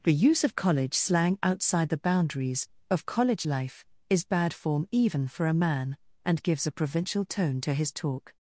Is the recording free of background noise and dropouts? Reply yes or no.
yes